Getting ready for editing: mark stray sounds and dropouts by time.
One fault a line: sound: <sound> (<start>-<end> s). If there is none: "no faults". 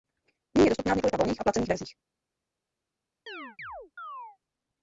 sound: chirp (3.3-4.4 s)